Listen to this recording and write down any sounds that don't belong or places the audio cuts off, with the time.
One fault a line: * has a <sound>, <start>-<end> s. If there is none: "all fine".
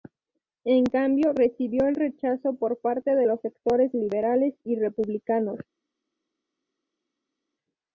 all fine